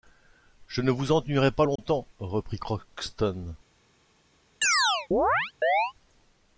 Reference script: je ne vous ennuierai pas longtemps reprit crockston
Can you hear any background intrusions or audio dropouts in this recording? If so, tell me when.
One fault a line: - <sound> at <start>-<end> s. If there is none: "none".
- dropout at 1.8-1.8 s
- chirp at 4.6-5.9 s